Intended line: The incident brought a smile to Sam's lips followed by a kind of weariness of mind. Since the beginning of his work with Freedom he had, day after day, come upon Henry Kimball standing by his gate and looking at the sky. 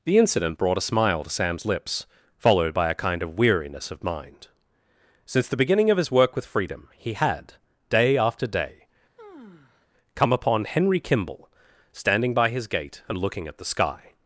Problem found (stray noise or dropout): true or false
true